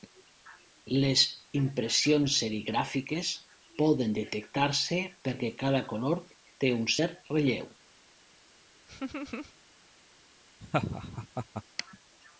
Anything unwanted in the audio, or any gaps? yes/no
yes